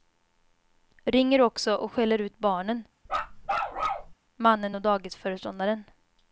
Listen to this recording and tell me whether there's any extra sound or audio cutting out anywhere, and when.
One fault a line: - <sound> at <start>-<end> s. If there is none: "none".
- bark at 3.1-4.1 s